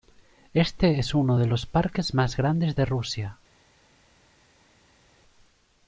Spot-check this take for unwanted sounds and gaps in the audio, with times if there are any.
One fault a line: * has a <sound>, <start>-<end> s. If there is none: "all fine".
all fine